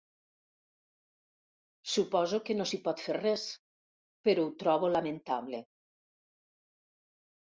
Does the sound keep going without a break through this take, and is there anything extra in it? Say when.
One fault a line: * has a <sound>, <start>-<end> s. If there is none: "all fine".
all fine